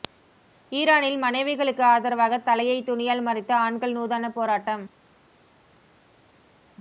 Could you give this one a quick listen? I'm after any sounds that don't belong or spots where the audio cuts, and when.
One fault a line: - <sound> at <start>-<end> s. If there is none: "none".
none